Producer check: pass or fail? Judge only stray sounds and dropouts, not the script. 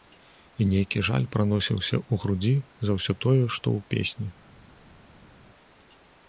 pass